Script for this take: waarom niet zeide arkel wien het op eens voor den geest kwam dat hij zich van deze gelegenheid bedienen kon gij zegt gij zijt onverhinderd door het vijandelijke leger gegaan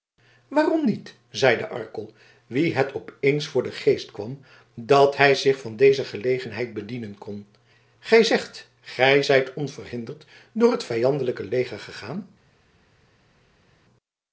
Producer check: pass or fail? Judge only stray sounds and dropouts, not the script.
pass